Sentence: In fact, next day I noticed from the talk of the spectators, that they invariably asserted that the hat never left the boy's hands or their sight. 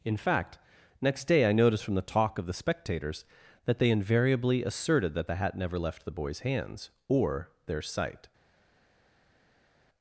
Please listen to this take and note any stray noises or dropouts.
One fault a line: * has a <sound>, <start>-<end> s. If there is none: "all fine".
all fine